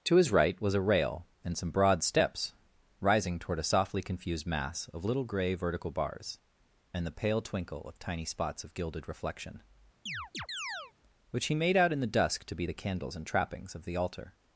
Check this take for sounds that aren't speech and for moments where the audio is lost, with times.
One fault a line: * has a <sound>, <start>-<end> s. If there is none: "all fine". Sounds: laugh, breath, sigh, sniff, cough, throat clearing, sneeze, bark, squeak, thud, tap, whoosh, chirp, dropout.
* has a chirp, 10.1-10.9 s